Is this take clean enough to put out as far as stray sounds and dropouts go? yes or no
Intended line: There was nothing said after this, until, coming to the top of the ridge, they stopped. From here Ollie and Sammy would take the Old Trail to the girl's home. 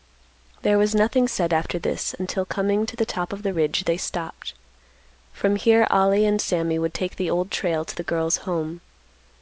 yes